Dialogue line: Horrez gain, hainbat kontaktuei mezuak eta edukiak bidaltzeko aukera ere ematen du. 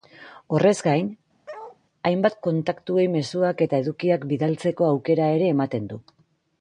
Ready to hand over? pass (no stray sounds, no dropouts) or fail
fail